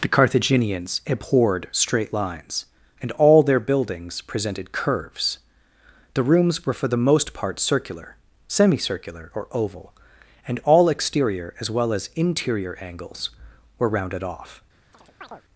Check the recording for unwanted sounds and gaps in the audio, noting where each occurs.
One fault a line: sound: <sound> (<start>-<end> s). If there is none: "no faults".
sound: chirp (14.9-15.4 s)